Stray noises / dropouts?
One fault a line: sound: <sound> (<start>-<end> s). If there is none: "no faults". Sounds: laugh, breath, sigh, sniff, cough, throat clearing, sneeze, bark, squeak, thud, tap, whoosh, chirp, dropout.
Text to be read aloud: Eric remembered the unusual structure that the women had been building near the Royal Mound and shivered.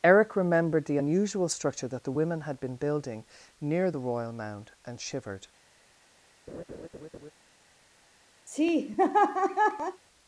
sound: laugh (6.5-7.3 s)
sound: laugh (8.5-10.0 s)